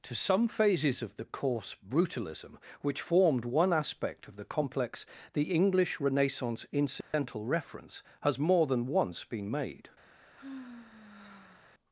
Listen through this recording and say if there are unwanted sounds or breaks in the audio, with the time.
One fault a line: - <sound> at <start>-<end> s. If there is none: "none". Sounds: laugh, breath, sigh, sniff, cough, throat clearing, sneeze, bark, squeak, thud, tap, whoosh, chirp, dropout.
- dropout at 7.0-7.1 s
- sigh at 10.3-11.7 s